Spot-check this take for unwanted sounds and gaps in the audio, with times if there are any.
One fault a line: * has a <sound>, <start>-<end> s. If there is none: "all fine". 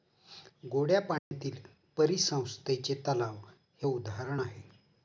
* has a dropout, 1.2-1.3 s